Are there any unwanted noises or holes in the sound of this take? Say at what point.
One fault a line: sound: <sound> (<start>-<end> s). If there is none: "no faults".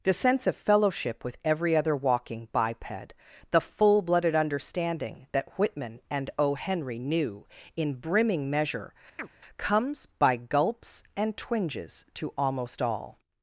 sound: chirp (9.2-9.3 s)